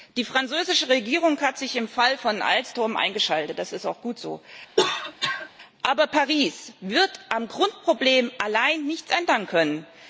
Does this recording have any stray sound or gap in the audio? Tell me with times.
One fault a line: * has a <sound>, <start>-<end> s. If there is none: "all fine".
* has a cough, 4.8-5.5 s